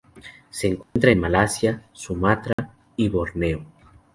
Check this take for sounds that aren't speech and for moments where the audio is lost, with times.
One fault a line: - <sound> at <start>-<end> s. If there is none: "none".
- dropout at 0.8-1.0 s
- dropout at 2.5-2.6 s